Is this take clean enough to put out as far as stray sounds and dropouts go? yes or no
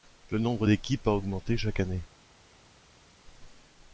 yes